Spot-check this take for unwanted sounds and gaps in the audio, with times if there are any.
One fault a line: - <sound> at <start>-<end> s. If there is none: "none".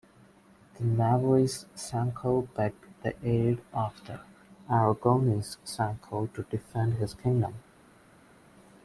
none